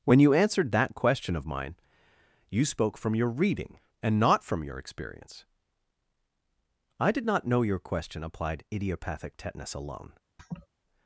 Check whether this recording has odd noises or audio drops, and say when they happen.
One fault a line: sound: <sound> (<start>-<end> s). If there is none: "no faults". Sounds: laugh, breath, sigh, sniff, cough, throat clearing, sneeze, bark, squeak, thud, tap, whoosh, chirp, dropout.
sound: laugh (10.4-10.7 s)